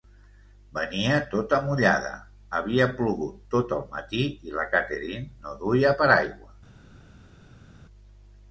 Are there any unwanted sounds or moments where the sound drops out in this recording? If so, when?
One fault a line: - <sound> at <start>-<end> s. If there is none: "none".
none